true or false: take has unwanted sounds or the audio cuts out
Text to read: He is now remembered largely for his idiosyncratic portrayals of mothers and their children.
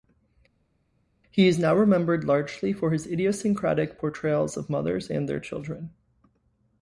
false